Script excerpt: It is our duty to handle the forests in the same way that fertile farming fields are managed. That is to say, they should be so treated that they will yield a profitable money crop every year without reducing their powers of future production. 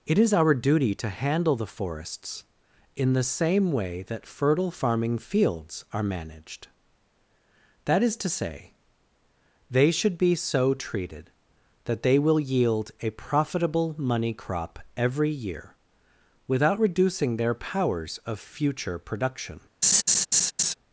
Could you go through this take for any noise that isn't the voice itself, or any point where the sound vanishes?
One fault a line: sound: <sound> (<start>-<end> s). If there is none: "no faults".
sound: laugh (19.8-20.7 s)